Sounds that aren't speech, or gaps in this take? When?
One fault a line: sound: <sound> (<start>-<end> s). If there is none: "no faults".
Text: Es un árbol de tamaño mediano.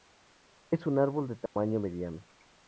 sound: dropout (1.5-1.6 s)